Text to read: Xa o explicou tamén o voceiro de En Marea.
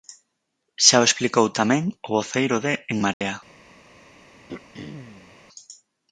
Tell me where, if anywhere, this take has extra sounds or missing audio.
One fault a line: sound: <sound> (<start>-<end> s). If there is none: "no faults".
sound: dropout (3.1-3.2 s)
sound: throat clearing (4.5-5.4 s)